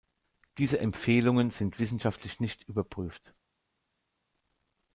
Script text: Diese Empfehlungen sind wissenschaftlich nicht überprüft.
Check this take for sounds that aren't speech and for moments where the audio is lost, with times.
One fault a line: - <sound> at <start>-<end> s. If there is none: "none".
none